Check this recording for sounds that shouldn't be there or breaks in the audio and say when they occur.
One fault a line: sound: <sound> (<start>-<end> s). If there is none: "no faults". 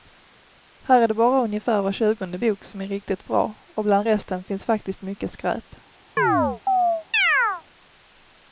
sound: chirp (6.2-7.6 s)